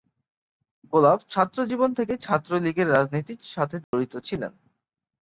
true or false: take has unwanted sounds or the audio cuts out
true